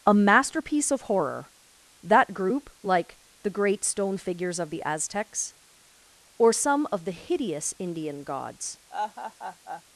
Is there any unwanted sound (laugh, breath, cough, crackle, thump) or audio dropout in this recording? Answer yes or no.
yes